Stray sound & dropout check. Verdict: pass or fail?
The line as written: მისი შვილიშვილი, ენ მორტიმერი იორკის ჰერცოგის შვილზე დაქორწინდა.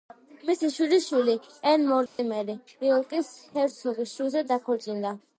fail